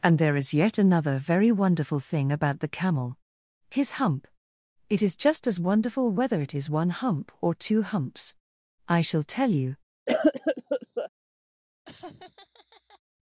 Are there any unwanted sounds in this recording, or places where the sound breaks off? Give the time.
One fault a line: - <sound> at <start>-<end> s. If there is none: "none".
- cough at 10.1-11.1 s
- laugh at 11.8-13.0 s